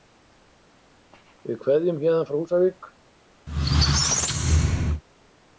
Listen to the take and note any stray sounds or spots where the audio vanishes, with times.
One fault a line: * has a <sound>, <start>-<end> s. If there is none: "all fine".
* has a squeak, 3.5-5.0 s